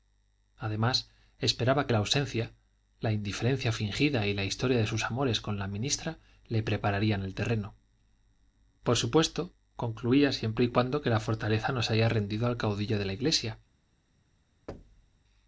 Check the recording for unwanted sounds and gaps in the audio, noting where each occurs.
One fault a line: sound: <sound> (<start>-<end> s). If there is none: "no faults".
sound: thud (14.7-15.2 s)